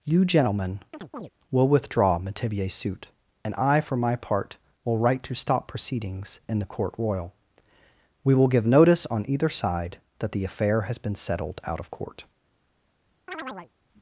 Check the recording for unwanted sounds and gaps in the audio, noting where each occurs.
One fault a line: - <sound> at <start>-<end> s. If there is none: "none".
- chirp at 0.9-1.3 s
- chirp at 13.3-13.7 s